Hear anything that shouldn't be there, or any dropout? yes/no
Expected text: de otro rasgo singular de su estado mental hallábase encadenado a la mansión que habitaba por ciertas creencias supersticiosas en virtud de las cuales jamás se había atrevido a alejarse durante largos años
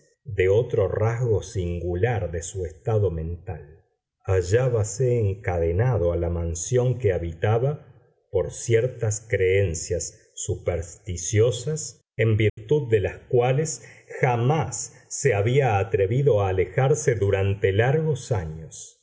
yes